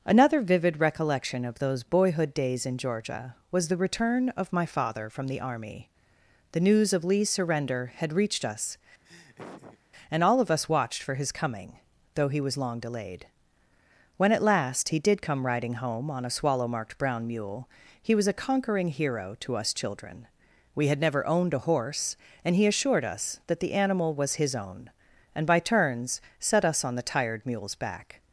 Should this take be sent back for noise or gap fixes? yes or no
yes